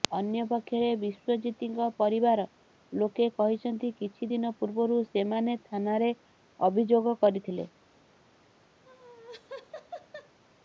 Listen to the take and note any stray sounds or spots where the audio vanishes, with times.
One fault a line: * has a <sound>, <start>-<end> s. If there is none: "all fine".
* has a laugh, 8.8-10.4 s